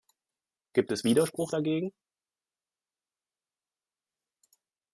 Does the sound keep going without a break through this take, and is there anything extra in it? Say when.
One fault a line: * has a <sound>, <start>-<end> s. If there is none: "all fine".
all fine